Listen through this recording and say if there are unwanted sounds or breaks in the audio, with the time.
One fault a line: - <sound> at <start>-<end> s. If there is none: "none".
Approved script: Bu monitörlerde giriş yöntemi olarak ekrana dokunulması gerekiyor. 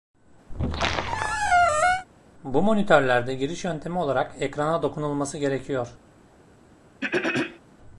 - squeak at 0.5-2.1 s
- throat clearing at 7.0-7.6 s